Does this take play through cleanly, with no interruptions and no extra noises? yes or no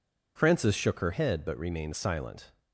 yes